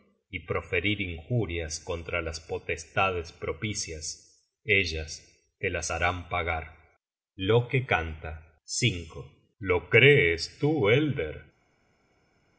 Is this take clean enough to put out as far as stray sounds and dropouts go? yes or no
yes